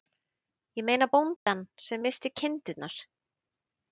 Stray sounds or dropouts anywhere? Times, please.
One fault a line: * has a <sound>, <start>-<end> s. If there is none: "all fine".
* has a dropout, 1.4-1.5 s